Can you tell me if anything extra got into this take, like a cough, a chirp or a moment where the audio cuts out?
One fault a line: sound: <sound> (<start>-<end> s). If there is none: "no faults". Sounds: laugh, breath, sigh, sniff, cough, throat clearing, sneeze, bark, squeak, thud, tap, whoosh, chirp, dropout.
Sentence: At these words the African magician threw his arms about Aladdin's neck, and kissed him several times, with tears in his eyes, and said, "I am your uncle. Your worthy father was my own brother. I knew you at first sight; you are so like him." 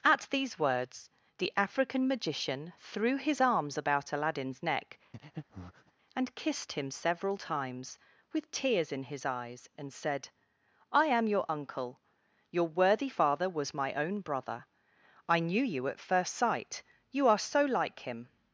sound: breath (5.1-5.9 s)